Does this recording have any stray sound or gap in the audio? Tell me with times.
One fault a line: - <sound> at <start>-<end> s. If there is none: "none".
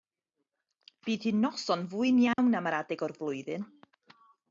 - dropout at 2.3-2.4 s